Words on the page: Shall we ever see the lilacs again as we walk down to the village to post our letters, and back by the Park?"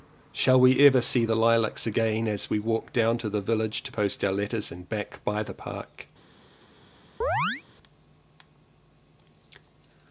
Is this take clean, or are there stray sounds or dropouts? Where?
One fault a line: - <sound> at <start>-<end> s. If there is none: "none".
- chirp at 7.2-7.6 s